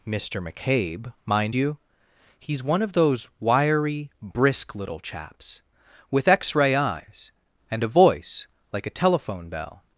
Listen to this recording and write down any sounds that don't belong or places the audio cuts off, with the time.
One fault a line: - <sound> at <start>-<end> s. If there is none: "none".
none